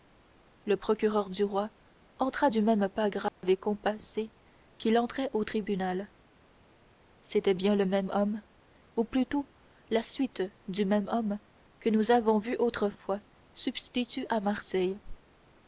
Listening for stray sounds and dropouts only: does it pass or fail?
fail